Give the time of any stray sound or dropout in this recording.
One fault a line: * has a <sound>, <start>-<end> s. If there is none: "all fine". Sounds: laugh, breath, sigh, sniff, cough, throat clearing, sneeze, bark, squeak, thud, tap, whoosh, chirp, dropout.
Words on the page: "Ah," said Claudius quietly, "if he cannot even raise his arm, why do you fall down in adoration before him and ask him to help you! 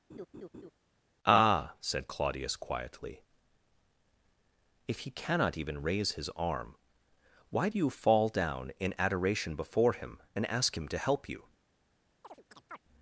* has a laugh, 0.1-0.7 s
* has a chirp, 12.2-12.8 s